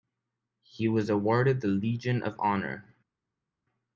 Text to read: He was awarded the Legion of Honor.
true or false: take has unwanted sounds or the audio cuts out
false